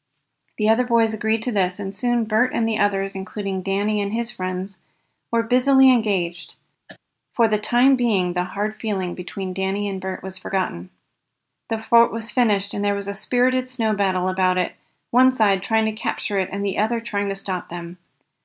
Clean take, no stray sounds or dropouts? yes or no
no